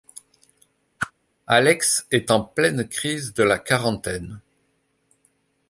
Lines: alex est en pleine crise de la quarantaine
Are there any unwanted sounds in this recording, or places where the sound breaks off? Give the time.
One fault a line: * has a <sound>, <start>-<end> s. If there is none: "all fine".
* has a whoosh, 1.0-1.1 s